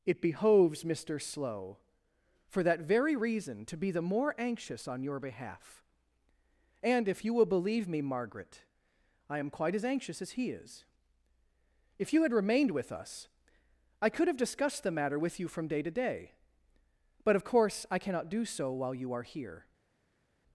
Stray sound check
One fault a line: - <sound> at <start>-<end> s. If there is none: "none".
none